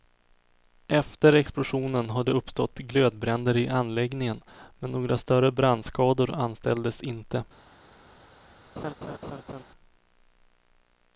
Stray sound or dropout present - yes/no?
yes